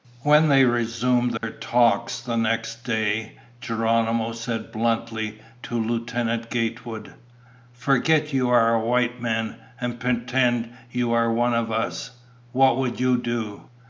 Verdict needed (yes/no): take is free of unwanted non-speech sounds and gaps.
no